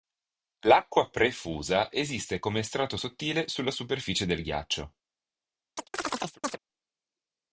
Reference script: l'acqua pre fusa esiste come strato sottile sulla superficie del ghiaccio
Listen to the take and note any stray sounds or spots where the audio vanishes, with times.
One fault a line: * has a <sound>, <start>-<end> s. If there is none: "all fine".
* has a chirp, 5.8-6.6 s